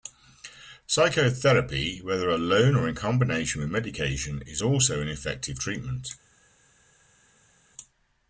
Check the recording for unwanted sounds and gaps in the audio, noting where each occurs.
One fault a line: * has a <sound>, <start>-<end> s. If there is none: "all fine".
all fine